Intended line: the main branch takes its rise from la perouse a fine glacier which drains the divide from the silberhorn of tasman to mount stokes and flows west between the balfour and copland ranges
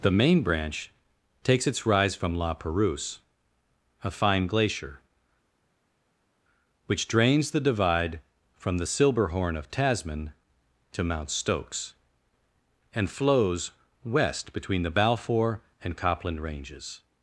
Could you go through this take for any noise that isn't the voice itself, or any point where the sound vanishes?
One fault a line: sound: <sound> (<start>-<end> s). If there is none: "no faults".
no faults